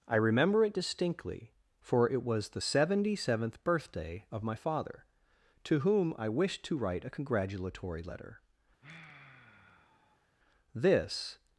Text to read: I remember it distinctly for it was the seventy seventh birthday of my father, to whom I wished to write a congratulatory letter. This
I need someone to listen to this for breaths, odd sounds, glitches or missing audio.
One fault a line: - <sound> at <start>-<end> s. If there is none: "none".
- sigh at 8.8-10.3 s